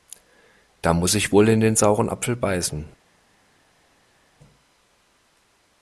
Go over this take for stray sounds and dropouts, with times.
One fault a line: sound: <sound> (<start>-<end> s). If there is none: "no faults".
no faults